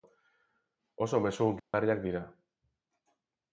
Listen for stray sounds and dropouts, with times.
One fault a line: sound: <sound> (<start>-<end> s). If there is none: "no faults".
sound: dropout (1.6-1.7 s)